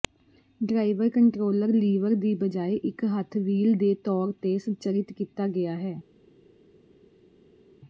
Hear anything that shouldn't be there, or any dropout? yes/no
no